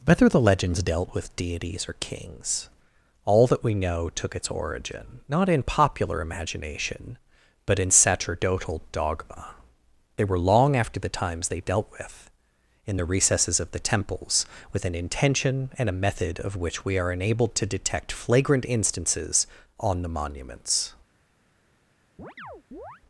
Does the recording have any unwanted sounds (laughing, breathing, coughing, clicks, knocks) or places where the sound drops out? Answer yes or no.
yes